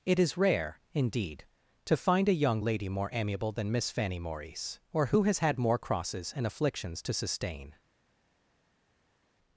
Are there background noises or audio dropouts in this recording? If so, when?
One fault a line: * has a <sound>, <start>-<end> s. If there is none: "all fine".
all fine